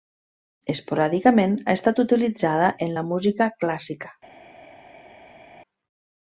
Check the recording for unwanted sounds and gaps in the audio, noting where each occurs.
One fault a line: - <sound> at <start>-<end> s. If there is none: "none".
none